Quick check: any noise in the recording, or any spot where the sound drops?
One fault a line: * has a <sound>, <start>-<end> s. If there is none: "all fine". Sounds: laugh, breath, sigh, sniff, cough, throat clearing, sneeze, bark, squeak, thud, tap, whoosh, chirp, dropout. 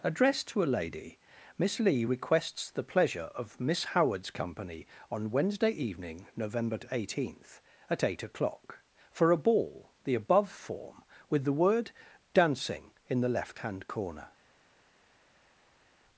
all fine